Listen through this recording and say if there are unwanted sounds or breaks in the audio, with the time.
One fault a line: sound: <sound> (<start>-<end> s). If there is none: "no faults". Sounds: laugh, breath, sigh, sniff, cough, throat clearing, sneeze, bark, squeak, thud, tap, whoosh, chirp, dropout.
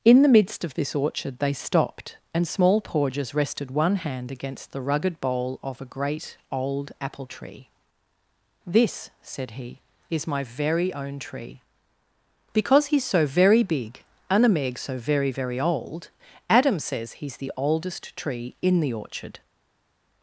no faults